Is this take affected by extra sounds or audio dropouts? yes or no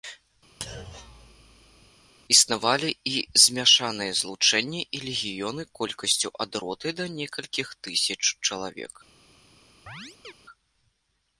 yes